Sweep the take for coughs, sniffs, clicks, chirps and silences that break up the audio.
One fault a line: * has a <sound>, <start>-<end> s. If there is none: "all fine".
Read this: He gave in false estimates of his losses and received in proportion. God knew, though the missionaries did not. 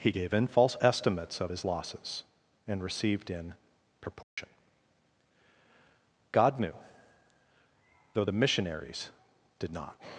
* has a dropout, 4.2-4.4 s